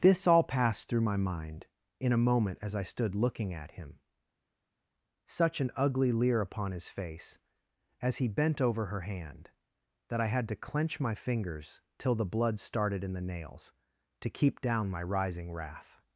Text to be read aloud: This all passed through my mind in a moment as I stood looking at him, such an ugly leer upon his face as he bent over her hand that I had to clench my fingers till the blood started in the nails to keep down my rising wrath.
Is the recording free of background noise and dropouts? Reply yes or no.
yes